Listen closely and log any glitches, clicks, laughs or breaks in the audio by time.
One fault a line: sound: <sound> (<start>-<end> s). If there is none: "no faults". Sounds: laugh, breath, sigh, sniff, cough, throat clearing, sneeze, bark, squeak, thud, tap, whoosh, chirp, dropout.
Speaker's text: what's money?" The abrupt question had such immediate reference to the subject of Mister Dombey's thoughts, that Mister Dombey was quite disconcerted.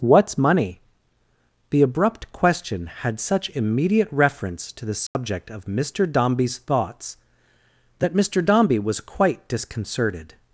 sound: dropout (5.1-5.1 s)